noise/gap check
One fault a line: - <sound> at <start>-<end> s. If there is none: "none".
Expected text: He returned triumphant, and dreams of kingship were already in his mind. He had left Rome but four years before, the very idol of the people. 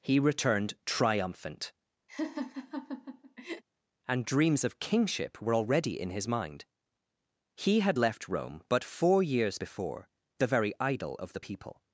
- laugh at 2.1-3.6 s